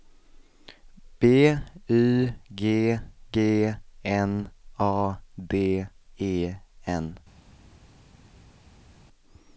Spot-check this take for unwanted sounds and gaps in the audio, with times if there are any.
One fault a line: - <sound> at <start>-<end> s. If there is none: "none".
none